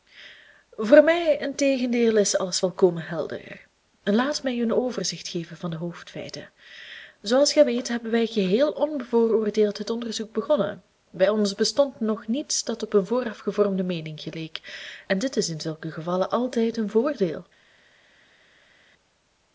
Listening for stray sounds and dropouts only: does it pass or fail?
pass